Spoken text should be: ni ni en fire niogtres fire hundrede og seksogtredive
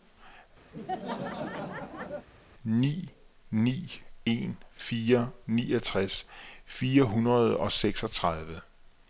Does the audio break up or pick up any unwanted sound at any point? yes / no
yes